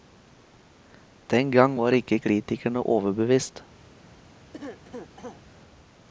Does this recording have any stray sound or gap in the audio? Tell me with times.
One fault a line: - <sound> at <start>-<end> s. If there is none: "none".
- cough at 4.5-5.4 s